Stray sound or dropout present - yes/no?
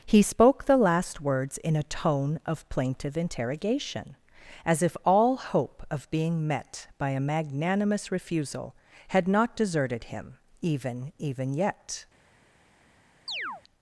yes